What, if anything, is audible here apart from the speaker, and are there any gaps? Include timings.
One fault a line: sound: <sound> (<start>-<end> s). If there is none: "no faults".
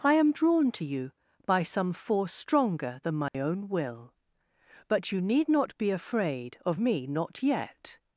sound: dropout (3.3-3.3 s)